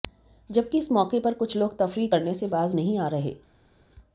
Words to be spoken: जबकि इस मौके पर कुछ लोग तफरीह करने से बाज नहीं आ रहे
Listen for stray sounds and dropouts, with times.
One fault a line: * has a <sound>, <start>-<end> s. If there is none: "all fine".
all fine